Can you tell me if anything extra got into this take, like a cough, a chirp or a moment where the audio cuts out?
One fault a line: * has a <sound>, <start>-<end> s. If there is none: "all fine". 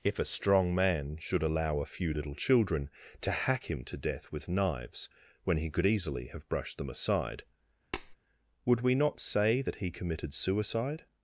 * has a tap, 7.9-8.2 s